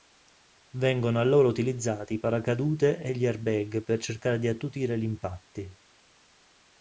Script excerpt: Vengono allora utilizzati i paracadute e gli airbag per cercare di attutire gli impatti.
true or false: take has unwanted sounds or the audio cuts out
false